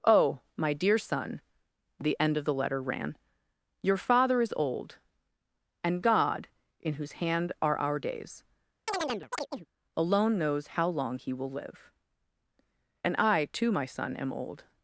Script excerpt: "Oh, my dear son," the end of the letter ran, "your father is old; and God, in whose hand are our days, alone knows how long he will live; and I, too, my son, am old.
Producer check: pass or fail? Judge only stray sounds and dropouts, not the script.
fail